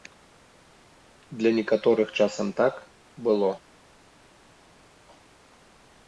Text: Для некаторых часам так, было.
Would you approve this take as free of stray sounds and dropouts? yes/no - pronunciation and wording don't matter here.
yes